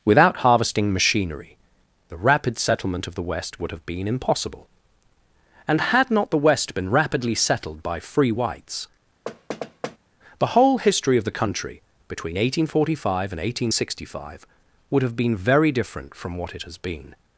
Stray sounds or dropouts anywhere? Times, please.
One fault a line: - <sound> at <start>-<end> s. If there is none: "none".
- thud at 9.3-10.0 s